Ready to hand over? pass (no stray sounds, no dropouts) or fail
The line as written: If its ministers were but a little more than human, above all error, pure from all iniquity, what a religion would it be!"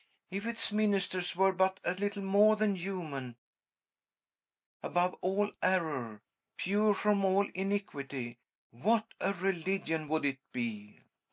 pass